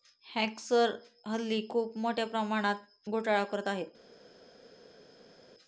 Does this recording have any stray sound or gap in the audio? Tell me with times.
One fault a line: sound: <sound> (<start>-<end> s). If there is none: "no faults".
no faults